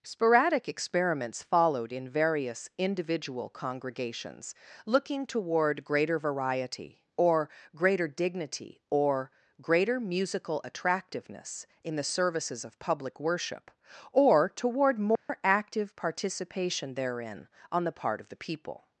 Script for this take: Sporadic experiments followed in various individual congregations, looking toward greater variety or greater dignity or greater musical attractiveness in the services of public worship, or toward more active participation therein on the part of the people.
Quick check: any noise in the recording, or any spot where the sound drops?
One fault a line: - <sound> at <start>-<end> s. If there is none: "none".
- dropout at 15.2-15.3 s